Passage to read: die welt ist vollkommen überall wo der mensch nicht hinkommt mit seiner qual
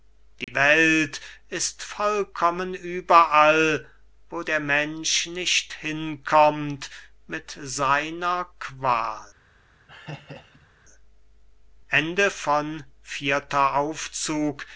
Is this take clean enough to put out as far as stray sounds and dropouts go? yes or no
no